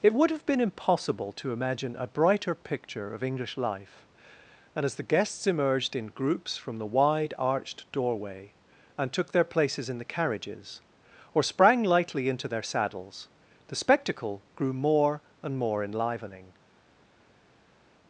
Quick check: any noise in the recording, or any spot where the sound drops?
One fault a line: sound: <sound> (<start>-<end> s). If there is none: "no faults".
no faults